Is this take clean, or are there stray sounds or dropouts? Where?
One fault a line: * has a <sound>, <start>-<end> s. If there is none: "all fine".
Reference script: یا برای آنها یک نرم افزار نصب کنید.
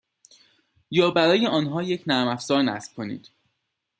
all fine